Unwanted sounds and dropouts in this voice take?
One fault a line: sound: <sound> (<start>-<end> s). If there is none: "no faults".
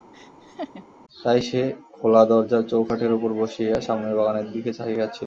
sound: laugh (0.1-0.8 s)